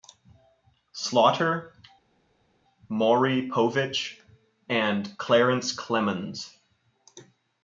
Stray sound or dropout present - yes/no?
no